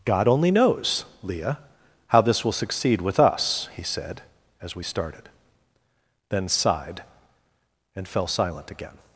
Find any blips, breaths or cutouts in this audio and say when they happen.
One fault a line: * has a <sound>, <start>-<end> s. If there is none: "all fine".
all fine